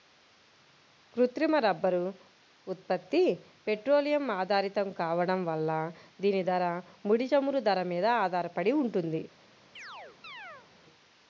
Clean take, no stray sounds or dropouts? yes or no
no